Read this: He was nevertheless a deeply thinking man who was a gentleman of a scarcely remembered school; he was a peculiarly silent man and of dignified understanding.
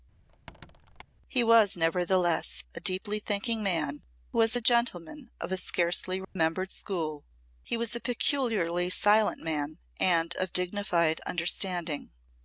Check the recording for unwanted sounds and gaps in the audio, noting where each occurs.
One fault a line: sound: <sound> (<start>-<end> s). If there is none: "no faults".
sound: squeak (0.3-1.0 s)
sound: dropout (6.2-6.4 s)